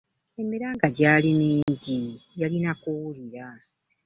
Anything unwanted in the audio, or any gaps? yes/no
yes